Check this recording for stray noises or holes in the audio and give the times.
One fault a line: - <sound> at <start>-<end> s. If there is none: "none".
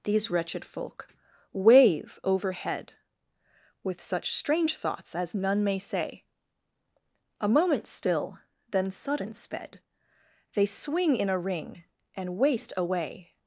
none